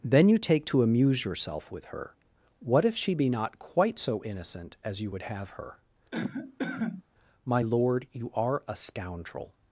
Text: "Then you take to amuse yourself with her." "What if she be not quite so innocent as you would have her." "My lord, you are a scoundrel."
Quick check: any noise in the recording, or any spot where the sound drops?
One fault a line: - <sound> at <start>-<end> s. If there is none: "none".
- cough at 6.1-7.0 s